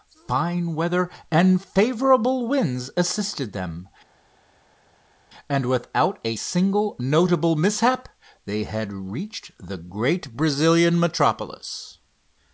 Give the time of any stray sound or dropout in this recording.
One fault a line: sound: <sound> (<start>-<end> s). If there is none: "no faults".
no faults